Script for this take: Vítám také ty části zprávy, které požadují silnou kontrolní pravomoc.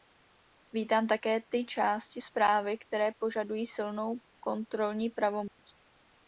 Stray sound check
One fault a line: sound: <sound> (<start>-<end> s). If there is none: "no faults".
sound: dropout (5.5-5.6 s)